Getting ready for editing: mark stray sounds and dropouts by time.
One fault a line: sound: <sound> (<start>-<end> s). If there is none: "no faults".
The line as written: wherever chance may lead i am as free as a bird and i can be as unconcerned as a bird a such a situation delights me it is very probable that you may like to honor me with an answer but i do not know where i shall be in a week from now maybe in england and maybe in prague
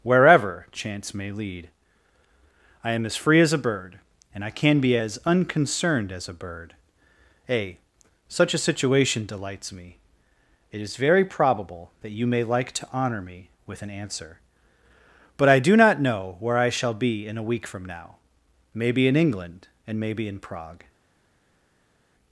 no faults